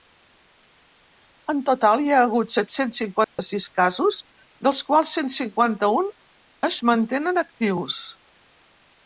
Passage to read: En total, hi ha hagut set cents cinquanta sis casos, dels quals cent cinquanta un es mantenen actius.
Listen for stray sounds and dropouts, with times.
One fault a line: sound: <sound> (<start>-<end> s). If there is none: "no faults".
sound: dropout (3.2-3.4 s)